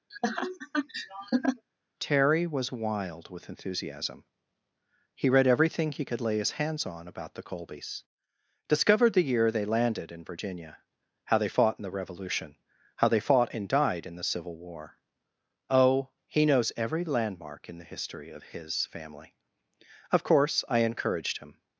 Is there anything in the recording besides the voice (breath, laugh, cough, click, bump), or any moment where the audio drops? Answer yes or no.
yes